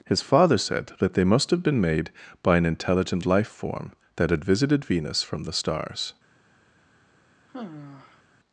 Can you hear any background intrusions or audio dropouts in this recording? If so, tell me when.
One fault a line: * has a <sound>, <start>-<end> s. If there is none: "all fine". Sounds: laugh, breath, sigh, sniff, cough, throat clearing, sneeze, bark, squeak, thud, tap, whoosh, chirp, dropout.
* has a sigh, 7.5-8.2 s